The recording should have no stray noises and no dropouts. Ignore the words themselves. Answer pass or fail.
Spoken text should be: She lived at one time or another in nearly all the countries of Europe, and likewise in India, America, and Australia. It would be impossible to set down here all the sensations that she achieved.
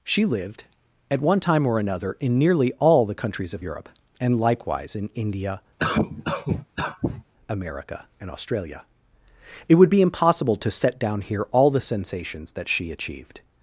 fail